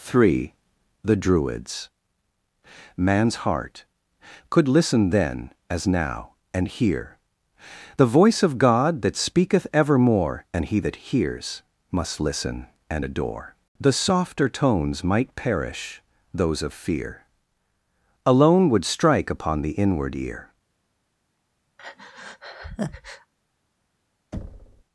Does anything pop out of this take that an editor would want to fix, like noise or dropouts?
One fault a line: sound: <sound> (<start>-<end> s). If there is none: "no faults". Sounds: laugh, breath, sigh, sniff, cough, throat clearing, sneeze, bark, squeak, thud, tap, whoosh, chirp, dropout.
sound: breath (21.8-23.3 s)
sound: thud (24.3-24.8 s)